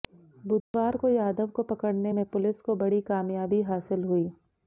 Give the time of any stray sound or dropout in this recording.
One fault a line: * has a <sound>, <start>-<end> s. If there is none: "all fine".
* has a dropout, 0.6-0.7 s